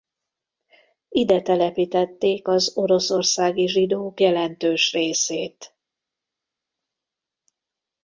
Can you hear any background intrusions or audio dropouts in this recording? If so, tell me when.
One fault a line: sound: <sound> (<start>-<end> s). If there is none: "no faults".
no faults